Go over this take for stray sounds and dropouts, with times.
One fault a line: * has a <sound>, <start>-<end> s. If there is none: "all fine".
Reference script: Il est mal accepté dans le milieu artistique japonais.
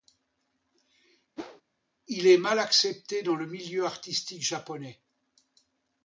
* has a whoosh, 1.4-1.6 s